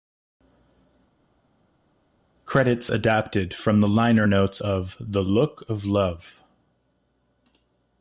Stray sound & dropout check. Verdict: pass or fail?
pass